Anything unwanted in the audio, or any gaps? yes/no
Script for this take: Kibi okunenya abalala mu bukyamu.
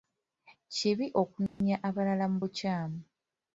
yes